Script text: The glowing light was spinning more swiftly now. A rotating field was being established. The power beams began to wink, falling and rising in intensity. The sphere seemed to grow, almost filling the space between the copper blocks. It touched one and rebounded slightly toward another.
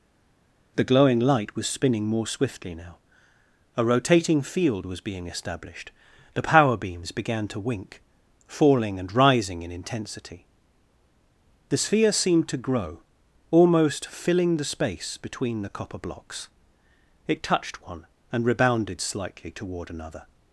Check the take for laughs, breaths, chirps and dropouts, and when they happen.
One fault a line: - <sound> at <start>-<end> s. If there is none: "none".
none